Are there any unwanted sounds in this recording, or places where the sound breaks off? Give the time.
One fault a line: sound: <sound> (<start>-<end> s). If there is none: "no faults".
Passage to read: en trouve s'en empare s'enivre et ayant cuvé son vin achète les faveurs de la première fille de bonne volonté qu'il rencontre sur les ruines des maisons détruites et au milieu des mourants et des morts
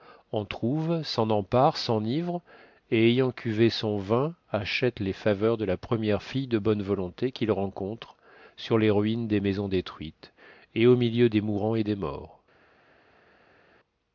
no faults